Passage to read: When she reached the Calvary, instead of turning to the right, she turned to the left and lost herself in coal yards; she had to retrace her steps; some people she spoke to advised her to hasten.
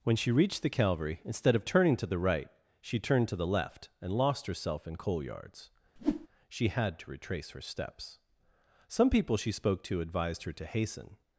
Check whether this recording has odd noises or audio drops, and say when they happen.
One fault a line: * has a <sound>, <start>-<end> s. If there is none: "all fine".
* has a whoosh, 6.0-6.3 s